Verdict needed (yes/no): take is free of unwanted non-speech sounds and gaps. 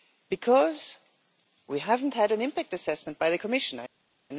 yes